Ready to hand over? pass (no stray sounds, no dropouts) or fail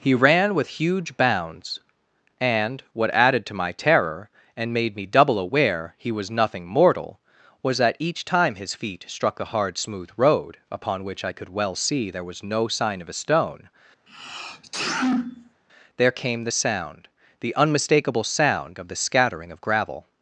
fail